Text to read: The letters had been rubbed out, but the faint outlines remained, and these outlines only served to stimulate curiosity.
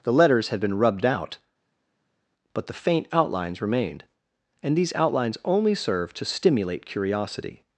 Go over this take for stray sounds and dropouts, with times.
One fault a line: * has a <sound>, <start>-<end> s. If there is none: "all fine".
all fine